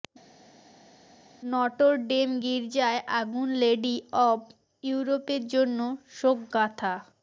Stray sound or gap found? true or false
false